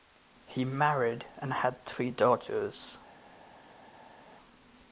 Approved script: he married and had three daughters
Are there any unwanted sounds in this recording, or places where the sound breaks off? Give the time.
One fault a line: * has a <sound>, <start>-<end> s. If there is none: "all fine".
all fine